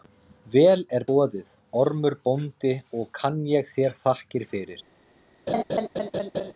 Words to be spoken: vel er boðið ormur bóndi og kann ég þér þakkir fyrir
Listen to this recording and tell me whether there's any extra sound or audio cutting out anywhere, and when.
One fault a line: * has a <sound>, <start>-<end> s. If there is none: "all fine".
* has a laugh, 5.5-6.5 s